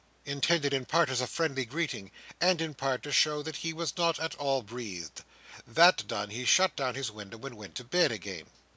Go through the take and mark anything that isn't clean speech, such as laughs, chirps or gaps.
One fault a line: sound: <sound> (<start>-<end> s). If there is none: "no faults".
no faults